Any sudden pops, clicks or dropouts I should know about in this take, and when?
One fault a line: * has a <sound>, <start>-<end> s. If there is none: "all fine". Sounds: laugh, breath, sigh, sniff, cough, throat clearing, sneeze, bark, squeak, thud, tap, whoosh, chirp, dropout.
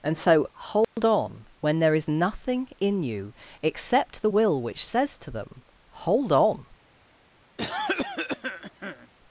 * has a dropout, 0.8-1.0 s
* has a cough, 7.6-9.1 s